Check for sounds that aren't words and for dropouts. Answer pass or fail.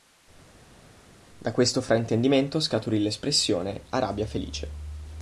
pass